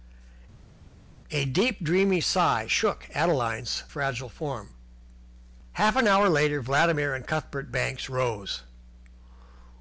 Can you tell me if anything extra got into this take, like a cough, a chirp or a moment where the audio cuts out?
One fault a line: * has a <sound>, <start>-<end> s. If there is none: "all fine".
all fine